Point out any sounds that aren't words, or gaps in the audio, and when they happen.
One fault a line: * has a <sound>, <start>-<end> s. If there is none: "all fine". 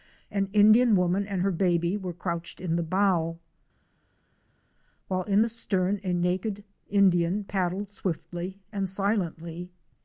all fine